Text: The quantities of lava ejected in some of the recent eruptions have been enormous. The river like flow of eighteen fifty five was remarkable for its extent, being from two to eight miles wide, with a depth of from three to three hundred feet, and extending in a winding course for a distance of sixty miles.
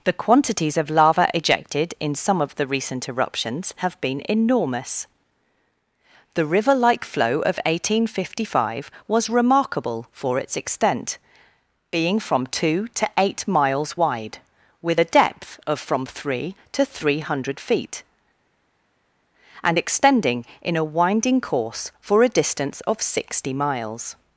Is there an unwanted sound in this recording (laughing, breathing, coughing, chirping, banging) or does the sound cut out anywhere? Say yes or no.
no